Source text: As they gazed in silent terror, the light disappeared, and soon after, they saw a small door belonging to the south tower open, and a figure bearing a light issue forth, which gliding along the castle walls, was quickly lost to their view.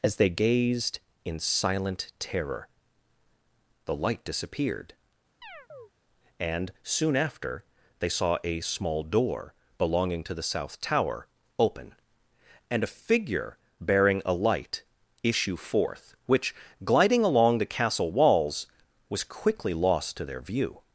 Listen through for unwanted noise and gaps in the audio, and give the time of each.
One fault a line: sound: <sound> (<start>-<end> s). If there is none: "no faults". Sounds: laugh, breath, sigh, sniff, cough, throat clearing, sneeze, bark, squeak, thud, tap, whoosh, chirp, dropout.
sound: chirp (5.4-5.9 s)